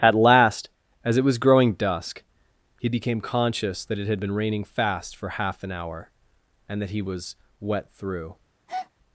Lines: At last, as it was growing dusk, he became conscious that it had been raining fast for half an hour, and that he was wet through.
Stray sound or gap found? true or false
true